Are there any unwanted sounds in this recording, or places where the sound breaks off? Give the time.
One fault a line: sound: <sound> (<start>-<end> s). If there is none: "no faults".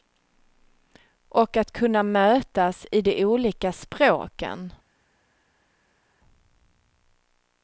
no faults